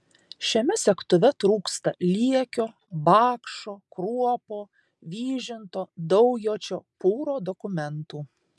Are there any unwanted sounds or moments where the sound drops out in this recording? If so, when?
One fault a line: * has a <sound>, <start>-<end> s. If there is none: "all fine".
all fine